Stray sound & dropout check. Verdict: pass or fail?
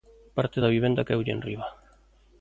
pass